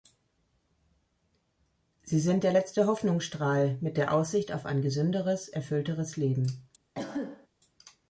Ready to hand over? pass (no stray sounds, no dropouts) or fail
fail